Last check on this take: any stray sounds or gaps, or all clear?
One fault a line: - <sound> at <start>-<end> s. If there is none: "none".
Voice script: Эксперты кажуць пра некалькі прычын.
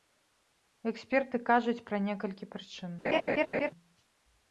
- laugh at 3.0-3.7 s